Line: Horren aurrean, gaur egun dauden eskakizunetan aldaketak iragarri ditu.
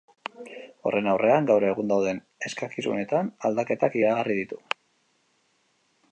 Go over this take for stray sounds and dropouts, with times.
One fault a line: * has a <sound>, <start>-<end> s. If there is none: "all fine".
all fine